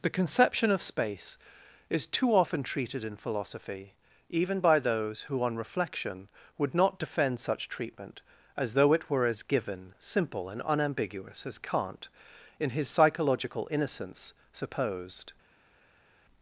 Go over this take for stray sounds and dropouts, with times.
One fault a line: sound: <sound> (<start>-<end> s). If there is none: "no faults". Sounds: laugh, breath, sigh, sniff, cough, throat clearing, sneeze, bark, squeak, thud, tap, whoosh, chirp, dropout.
no faults